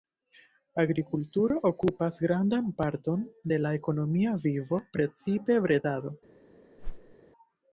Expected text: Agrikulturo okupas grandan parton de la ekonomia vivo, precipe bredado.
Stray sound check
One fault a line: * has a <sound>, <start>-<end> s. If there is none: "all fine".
* has a whoosh, 6.8-7.1 s